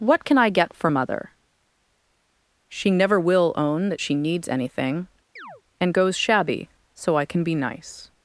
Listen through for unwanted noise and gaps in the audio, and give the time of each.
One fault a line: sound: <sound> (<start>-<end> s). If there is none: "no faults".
sound: chirp (5.4-5.6 s)